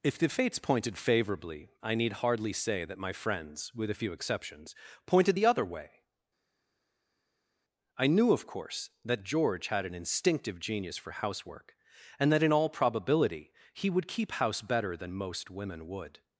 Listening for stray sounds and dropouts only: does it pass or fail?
pass